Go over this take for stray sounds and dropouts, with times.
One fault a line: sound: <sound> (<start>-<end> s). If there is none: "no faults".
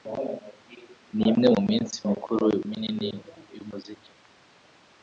no faults